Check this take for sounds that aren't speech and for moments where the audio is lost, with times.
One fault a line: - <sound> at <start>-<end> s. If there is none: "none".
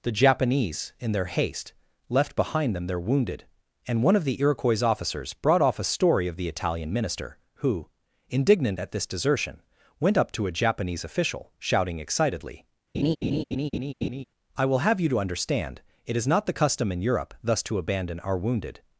- laugh at 12.9-14.2 s